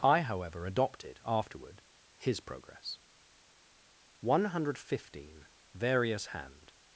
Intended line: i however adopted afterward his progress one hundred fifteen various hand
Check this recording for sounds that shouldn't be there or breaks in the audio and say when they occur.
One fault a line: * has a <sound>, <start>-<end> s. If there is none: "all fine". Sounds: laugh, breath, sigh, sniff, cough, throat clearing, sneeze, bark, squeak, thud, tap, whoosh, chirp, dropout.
all fine